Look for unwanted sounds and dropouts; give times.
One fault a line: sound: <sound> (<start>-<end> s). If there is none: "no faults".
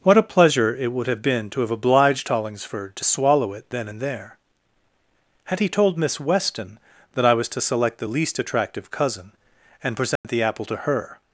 sound: dropout (10.2-10.2 s)